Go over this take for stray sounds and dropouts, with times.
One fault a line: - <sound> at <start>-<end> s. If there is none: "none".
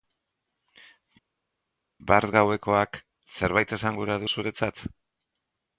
none